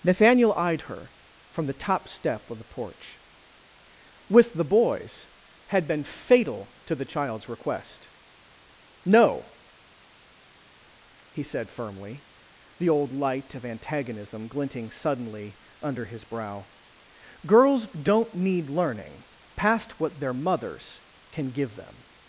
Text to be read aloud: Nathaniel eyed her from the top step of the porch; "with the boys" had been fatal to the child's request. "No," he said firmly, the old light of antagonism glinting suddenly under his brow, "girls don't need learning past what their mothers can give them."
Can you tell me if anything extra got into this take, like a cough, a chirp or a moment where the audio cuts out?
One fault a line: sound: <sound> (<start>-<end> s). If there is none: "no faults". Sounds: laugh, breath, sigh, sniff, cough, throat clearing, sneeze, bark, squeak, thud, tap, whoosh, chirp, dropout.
no faults